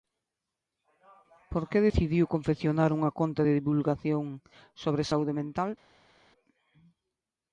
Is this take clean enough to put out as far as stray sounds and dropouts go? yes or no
yes